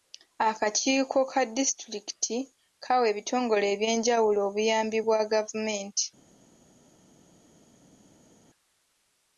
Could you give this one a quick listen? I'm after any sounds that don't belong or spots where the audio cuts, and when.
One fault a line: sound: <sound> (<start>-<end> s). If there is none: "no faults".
no faults